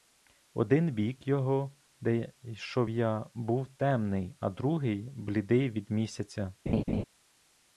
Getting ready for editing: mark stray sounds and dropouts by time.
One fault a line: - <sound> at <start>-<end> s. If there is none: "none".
- laugh at 6.7-7.0 s